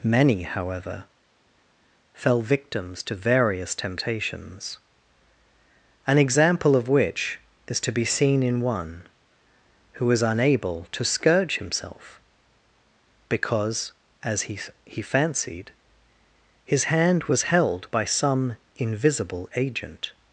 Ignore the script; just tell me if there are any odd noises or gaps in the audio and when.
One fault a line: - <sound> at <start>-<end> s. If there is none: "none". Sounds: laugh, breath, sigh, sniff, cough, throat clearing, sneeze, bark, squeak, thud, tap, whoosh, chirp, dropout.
none